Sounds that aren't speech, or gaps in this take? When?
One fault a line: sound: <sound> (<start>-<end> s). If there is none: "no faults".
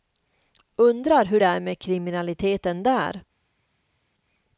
no faults